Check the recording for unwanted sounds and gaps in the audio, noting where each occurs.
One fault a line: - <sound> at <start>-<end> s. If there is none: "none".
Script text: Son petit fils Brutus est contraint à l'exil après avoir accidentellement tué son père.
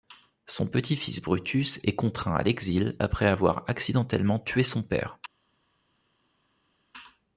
none